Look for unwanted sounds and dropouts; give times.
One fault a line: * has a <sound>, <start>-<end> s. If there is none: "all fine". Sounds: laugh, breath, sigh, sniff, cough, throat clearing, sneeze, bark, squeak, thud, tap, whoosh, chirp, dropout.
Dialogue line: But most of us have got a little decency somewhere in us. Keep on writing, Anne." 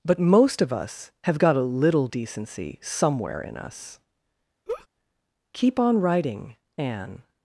* has a laugh, 4.7-4.9 s